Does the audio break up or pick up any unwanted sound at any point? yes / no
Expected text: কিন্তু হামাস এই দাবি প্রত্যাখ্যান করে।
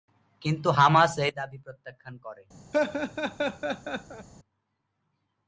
yes